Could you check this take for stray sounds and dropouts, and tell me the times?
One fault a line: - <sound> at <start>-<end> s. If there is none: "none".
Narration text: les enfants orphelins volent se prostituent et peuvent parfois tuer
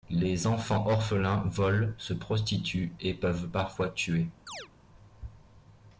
- chirp at 4.5-4.7 s